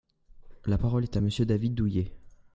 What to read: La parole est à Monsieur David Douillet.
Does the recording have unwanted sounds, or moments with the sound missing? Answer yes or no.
no